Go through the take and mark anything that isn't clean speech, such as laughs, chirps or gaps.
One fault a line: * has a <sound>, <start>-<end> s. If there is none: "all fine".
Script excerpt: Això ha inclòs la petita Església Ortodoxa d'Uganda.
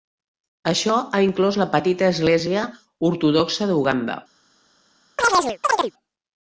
* has a chirp, 5.2-5.9 s